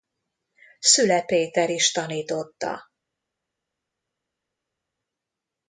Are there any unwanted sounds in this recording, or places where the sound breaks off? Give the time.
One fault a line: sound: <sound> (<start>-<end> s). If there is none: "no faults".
no faults